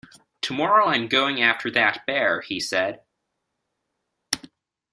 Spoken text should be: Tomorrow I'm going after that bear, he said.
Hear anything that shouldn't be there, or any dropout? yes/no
no